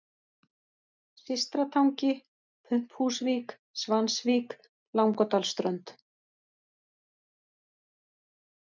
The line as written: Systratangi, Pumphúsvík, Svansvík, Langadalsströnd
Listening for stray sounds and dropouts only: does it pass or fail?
pass